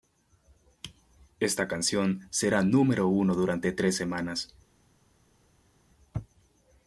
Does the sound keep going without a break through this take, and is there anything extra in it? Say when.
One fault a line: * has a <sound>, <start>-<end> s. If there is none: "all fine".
all fine